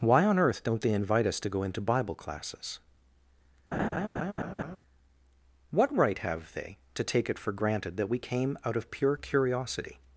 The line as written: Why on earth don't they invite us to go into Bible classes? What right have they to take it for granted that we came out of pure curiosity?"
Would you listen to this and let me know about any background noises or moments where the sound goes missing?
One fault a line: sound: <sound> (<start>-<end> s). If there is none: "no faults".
sound: laugh (3.7-4.8 s)